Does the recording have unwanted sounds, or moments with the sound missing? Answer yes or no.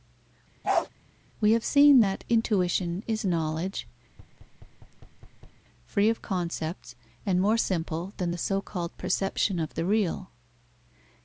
yes